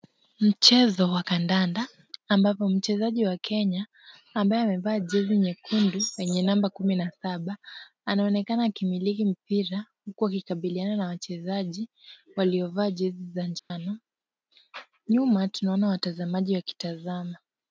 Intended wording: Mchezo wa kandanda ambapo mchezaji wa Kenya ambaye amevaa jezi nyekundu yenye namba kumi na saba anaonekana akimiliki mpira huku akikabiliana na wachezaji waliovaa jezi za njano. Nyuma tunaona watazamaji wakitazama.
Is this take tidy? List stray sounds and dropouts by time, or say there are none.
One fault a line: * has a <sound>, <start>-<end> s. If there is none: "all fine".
* has a dropout, 13.6-13.7 s